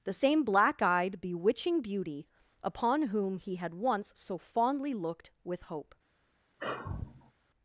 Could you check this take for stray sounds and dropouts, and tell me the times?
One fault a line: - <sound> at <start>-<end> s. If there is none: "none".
- sigh at 6.6-7.3 s